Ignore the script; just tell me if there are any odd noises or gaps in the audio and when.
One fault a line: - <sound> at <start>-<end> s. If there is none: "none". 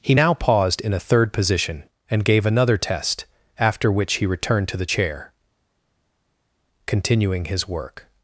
none